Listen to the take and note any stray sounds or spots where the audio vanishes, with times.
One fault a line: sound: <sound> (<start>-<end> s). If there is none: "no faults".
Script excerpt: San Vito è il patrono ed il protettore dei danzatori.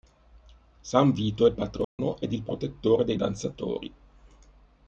sound: dropout (1.8-2.0 s)